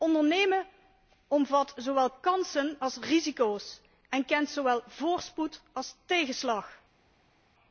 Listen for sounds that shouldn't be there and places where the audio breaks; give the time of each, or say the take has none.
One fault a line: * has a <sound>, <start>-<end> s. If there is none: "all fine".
all fine